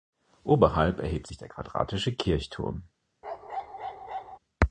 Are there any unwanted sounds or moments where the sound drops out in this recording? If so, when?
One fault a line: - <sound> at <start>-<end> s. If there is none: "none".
- bark at 3.2-4.4 s